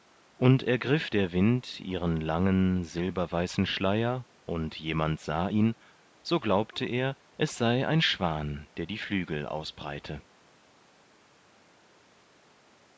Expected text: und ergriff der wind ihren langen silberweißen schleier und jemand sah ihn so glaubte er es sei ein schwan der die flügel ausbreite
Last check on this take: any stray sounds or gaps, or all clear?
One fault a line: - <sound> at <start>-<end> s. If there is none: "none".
none